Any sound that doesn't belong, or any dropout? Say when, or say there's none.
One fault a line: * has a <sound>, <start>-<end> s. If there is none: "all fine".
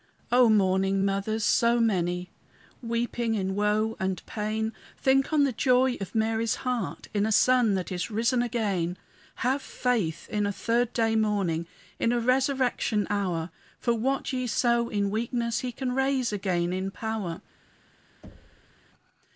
* has a thud, 18.2-18.7 s